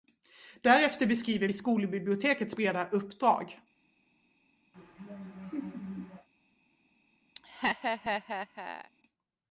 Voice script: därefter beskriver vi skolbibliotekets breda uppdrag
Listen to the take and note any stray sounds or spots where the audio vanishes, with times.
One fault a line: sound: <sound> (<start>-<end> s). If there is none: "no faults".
sound: laugh (4.7-6.3 s)
sound: laugh (7.4-8.9 s)